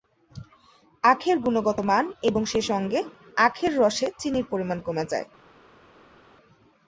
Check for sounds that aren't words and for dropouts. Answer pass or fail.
pass